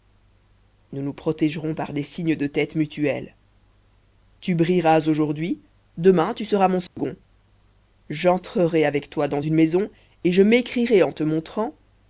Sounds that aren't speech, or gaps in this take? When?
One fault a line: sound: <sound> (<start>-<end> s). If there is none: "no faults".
sound: dropout (6.9-7.0 s)